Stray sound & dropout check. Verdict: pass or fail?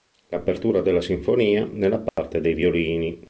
fail